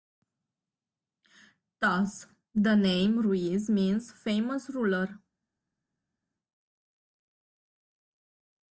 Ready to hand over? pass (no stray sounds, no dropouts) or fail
pass